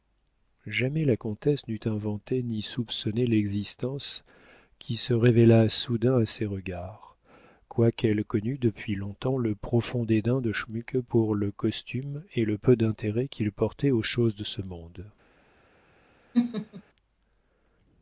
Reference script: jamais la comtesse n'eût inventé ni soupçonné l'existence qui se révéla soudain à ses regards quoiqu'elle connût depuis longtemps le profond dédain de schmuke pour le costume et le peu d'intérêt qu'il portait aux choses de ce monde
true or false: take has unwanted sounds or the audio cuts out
true